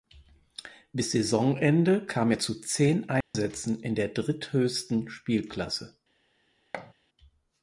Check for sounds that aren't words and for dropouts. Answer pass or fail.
fail